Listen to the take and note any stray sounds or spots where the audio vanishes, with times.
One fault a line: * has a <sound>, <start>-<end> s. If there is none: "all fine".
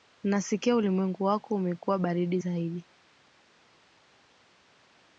all fine